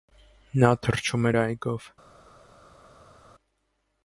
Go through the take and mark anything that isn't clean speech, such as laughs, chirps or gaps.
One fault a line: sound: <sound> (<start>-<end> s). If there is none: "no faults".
no faults